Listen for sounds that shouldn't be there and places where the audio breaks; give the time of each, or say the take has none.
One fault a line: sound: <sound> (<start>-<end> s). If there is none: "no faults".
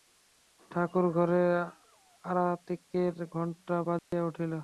sound: dropout (4.0-4.1 s)